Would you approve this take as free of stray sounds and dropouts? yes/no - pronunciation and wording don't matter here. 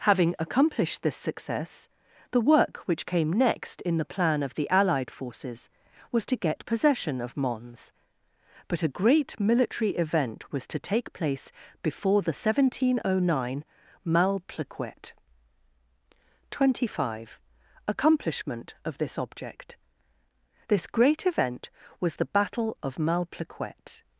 yes